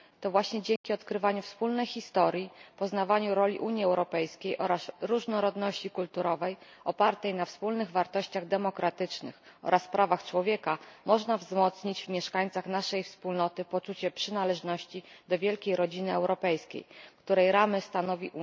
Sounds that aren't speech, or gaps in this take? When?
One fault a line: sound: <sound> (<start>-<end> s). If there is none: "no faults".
sound: dropout (0.8-0.8 s)